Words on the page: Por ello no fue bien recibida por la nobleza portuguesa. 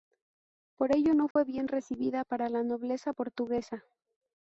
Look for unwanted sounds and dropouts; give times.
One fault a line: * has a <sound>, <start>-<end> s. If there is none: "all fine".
* has a dropout, 1.3-1.4 s